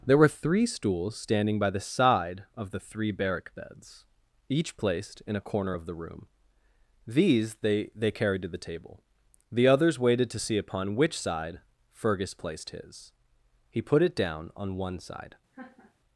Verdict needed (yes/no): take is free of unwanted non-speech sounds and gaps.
no